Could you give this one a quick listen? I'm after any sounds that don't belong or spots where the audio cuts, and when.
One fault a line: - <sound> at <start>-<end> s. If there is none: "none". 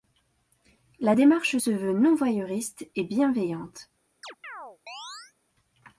- chirp at 4.2-5.3 s